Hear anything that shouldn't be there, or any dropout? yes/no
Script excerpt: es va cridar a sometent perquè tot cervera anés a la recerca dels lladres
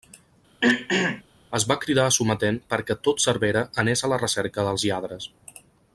yes